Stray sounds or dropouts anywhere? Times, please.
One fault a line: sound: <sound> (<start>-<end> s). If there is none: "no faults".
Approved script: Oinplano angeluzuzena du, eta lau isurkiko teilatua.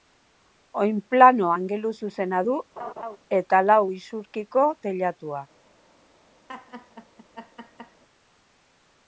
sound: laugh (2.8-3.2 s)
sound: laugh (6.5-8.0 s)